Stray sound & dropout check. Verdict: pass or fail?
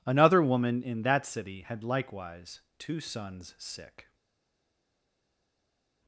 pass